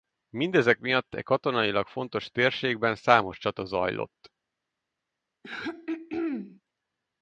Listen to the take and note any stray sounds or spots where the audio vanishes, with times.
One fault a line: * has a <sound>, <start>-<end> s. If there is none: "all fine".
* has a throat clearing, 5.4-6.6 s